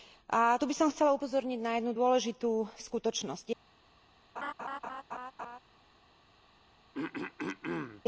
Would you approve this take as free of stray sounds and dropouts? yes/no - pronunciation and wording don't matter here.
no